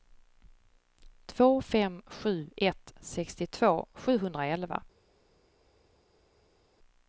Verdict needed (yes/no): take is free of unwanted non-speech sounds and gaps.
yes